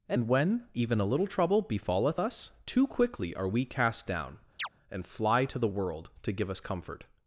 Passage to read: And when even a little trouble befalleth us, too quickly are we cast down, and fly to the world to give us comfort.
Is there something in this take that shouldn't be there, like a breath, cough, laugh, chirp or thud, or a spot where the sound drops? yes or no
yes